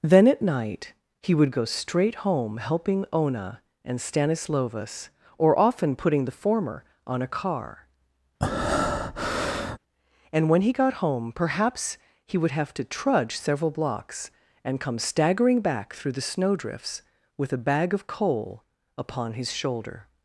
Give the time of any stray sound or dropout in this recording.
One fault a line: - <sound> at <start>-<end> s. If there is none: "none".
- breath at 8.4-9.8 s